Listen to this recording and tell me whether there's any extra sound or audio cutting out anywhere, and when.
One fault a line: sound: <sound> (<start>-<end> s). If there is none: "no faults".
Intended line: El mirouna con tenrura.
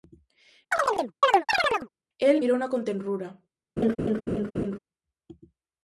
sound: chirp (0.7-1.9 s)
sound: laugh (3.8-4.8 s)